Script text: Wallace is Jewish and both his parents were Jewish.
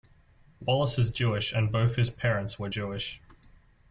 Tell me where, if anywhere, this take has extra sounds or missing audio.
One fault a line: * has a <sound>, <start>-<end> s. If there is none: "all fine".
all fine